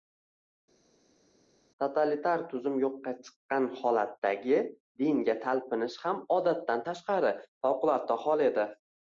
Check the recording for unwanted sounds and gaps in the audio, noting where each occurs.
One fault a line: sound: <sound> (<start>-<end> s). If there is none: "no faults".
no faults